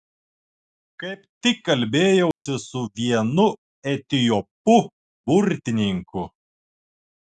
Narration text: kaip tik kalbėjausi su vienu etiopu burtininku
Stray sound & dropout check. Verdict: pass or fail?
fail